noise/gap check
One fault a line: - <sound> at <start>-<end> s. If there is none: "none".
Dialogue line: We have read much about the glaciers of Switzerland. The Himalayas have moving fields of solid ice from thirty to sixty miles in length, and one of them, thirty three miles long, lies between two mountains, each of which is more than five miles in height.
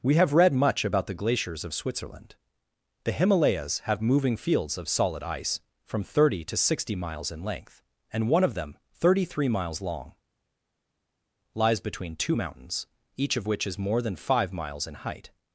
none